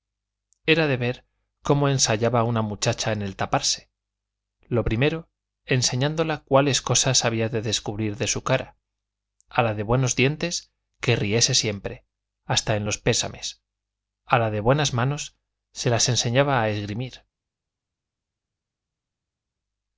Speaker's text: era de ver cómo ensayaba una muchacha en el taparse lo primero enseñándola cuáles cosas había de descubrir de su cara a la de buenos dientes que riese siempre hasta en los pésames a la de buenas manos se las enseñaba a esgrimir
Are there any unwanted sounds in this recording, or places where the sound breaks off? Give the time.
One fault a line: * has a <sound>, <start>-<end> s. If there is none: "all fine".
all fine